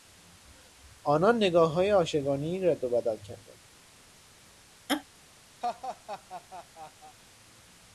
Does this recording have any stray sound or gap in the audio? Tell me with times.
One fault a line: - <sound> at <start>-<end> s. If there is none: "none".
- laugh at 4.9-5.0 s
- laugh at 5.6-7.2 s